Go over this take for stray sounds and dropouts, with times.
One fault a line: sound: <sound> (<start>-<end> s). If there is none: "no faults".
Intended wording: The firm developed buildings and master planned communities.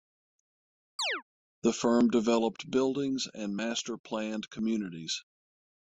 sound: chirp (1.0-1.2 s)